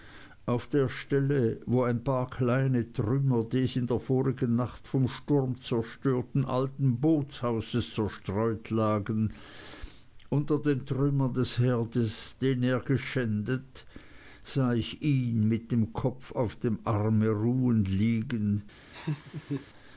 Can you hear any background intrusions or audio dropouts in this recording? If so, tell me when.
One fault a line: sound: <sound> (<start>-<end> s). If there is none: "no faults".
sound: laugh (18.9-19.7 s)